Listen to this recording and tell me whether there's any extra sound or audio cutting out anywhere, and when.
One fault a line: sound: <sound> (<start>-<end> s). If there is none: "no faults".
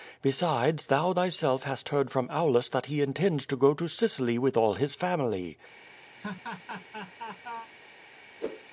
sound: laugh (6.1-7.7 s)
sound: whoosh (8.4-8.7 s)